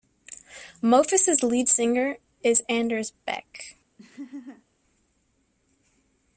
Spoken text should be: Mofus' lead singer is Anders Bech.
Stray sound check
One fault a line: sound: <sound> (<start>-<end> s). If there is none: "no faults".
sound: laugh (4.0-4.6 s)